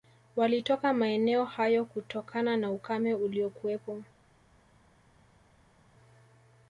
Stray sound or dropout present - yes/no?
no